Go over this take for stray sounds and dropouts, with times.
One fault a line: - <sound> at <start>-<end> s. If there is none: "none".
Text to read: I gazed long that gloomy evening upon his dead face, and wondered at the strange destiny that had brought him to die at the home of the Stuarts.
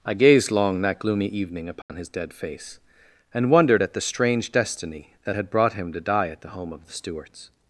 - dropout at 1.8-1.9 s